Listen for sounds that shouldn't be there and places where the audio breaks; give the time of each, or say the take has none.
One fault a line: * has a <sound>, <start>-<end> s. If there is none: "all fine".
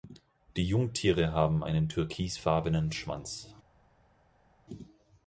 all fine